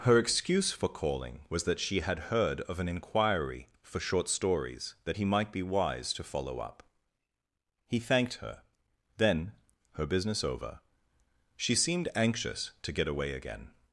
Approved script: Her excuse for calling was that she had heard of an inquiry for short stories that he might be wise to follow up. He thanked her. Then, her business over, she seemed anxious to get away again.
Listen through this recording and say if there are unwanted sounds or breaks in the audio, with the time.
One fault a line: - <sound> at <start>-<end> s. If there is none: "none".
none